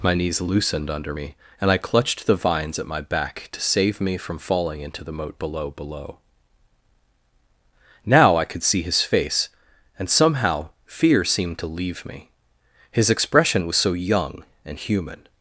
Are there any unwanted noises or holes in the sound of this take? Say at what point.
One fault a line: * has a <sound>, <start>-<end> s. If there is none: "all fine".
all fine